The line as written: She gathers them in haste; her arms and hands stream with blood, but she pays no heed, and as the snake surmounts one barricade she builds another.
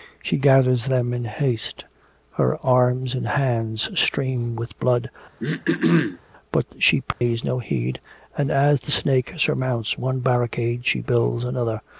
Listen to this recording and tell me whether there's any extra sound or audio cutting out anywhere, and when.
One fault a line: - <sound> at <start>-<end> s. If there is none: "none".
- throat clearing at 5.4-6.2 s
- dropout at 7.1-7.2 s